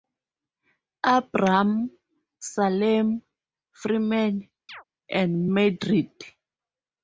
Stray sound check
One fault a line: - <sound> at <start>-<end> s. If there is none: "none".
- chirp at 4.7-4.8 s